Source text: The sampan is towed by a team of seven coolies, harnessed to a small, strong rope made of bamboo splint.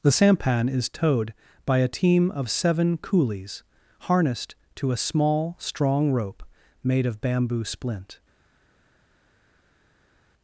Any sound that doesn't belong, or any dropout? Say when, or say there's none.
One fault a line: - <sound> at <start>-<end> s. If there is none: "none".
none